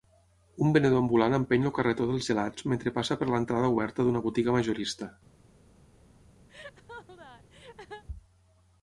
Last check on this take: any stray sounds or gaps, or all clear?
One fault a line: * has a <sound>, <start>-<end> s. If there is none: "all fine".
* has a laugh, 6.5-8.0 s